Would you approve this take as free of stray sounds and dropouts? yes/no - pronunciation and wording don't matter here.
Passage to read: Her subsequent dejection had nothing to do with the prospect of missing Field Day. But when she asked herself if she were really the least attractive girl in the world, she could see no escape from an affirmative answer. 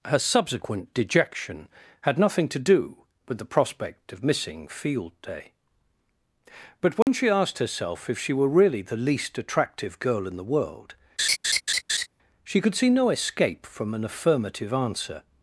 no